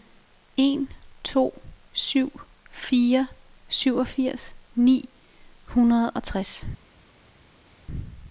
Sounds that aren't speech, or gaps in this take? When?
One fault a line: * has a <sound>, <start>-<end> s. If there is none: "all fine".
all fine